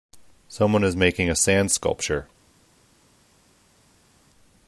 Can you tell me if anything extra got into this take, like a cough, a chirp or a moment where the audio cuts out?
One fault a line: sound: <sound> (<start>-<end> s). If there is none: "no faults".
no faults